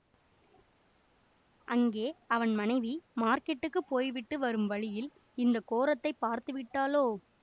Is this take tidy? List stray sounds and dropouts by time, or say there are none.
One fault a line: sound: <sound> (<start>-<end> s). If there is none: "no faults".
no faults